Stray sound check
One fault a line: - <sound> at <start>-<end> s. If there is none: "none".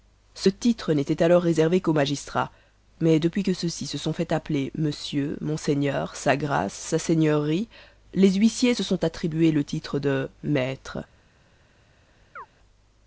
- chirp at 12.4-12.5 s